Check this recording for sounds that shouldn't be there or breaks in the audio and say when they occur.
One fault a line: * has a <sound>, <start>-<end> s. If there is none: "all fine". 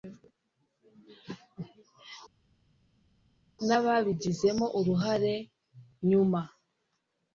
all fine